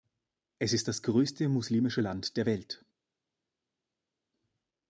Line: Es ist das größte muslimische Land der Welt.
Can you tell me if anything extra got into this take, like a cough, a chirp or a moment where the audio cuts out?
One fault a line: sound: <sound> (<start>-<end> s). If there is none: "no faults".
no faults